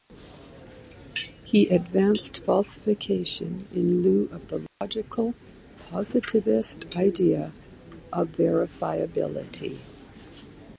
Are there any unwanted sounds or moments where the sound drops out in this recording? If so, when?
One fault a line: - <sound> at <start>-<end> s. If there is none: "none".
- dropout at 4.7-4.8 s